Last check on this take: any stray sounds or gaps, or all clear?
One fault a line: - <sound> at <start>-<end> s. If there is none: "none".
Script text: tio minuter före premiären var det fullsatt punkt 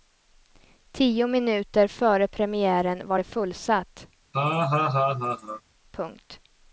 - laugh at 4.3-5.6 s